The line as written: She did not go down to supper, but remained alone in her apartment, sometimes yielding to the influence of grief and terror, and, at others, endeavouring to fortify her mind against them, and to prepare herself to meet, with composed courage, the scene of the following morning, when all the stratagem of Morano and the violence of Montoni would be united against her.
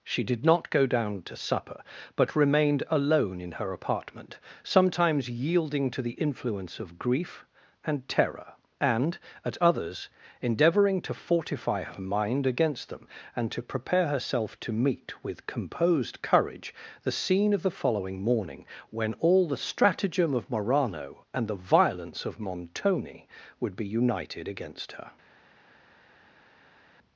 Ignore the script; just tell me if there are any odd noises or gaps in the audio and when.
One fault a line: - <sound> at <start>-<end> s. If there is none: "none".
none